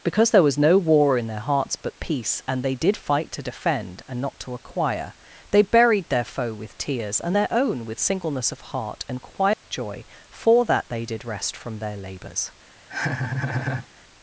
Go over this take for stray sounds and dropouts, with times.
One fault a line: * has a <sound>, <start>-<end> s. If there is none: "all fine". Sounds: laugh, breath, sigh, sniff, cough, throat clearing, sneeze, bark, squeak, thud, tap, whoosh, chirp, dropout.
* has a dropout, 9.5-9.6 s
* has a laugh, 12.9-13.9 s